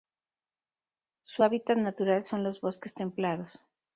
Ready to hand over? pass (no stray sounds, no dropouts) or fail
pass